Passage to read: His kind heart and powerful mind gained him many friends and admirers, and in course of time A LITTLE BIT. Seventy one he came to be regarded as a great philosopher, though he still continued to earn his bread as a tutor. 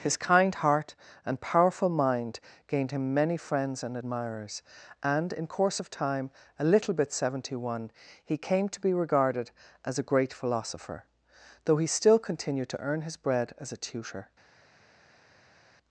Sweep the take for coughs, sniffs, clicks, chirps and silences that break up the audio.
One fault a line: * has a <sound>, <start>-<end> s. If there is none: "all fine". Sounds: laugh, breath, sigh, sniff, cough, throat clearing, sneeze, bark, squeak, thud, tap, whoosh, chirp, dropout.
all fine